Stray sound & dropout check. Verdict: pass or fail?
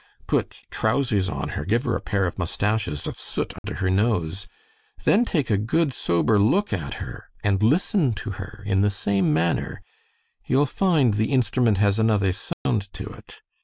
fail